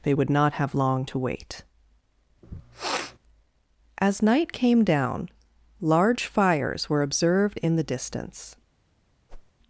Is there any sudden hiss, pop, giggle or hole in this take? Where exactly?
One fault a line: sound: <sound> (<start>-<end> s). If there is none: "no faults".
sound: sniff (2.4-3.2 s)
sound: whoosh (9.3-9.5 s)